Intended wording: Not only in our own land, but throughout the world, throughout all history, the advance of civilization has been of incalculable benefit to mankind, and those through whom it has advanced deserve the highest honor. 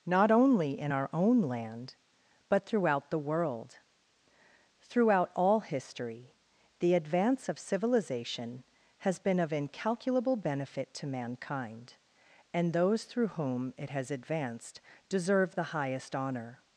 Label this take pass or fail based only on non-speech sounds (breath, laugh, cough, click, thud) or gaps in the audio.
pass